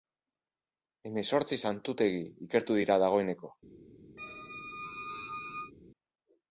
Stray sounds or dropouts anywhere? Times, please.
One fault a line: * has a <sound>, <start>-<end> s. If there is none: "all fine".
* has a squeak, 4.2-5.7 s